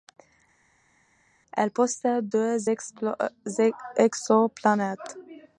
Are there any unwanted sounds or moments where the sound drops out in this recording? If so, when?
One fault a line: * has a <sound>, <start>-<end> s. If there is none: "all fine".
all fine